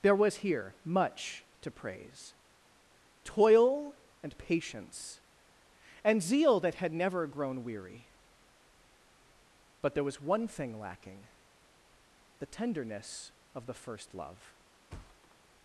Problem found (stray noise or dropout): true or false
true